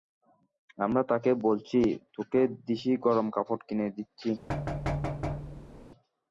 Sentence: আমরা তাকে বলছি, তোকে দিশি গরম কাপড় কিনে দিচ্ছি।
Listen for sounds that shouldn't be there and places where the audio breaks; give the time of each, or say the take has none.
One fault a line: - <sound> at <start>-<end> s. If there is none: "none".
- thud at 4.5-5.9 s